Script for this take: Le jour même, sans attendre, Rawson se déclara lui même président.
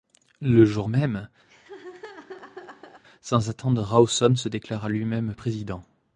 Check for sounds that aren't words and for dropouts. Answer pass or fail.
fail